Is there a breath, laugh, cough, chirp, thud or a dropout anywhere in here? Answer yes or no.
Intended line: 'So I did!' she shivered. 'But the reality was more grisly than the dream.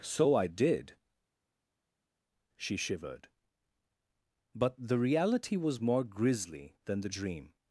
no